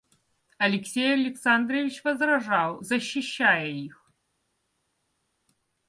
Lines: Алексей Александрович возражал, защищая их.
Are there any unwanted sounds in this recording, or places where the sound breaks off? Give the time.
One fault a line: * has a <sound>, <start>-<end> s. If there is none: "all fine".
all fine